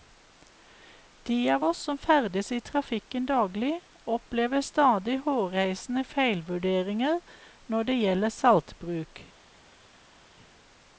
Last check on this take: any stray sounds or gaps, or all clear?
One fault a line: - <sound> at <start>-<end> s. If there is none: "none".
none